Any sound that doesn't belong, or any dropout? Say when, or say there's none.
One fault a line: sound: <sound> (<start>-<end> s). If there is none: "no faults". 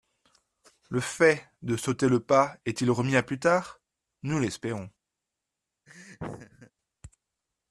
sound: laugh (5.9-6.7 s)